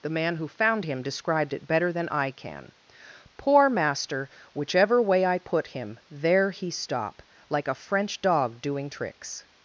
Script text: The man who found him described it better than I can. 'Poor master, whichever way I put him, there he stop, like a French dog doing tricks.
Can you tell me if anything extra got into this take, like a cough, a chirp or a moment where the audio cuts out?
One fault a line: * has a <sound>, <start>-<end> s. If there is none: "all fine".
all fine